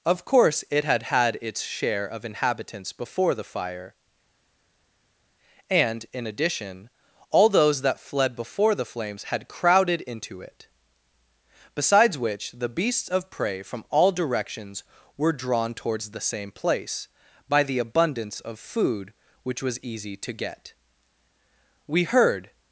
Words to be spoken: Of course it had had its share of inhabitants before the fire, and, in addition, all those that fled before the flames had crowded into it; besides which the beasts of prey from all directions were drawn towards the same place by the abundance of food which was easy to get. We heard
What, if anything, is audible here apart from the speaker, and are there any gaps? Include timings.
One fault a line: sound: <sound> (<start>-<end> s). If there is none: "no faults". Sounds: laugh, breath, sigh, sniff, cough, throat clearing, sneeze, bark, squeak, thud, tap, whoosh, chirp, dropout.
no faults